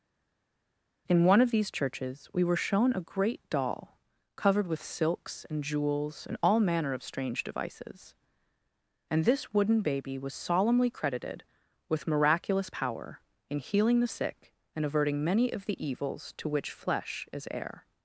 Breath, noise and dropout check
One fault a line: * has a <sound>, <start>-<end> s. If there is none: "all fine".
all fine